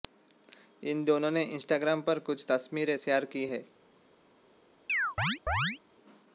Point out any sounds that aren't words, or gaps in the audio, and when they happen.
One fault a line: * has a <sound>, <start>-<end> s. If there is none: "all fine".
* has a chirp, 4.9-5.8 s